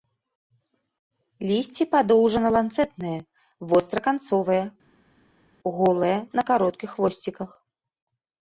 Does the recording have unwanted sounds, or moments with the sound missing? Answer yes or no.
no